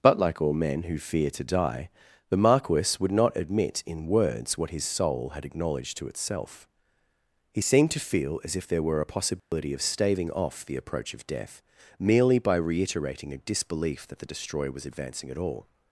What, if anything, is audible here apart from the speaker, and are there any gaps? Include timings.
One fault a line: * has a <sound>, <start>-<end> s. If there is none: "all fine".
* has a dropout, 9.4-9.5 s